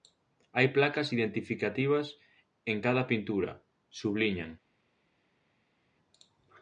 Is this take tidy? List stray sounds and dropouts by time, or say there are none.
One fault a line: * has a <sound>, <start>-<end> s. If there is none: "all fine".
all fine